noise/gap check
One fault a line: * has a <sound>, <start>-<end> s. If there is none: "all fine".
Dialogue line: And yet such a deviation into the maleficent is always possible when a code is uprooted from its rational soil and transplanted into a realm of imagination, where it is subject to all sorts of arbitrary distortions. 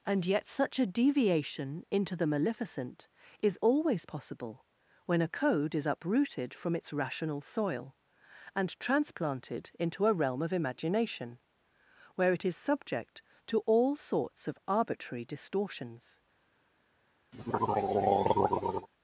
* has a throat clearing, 17.3-18.9 s